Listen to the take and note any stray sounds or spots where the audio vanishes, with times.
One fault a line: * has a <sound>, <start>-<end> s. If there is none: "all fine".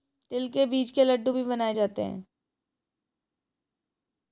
all fine